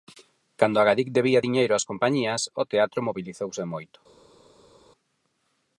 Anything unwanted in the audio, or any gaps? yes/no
no